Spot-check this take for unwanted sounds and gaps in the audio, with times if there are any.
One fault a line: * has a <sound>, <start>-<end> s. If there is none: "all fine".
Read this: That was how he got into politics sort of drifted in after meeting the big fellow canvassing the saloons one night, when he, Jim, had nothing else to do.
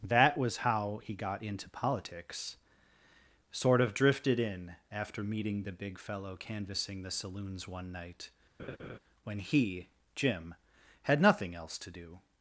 * has a laugh, 8.6-9.0 s